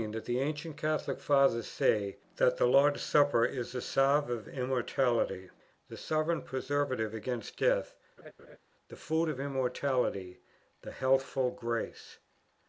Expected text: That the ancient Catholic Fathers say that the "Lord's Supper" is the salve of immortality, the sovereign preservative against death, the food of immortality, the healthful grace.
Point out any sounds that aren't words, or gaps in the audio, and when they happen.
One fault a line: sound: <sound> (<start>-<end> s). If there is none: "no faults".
sound: laugh (8.2-8.6 s)